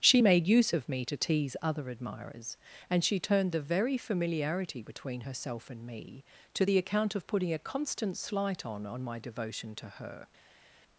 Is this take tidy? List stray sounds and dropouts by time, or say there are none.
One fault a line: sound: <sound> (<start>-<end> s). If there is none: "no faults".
no faults